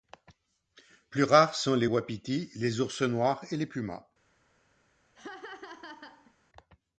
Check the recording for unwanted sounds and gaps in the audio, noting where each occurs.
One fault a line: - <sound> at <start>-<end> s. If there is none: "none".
- laugh at 5.2-6.3 s